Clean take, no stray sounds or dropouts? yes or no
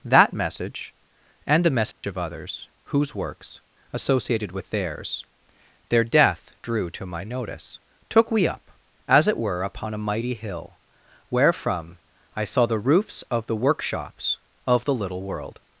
no